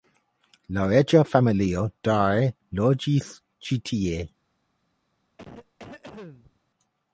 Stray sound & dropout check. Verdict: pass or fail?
fail